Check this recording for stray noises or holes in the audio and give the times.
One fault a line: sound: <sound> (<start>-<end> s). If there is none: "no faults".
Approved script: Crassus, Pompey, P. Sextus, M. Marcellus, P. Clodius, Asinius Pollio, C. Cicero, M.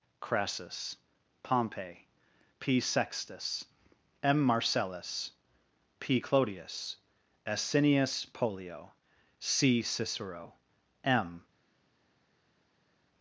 no faults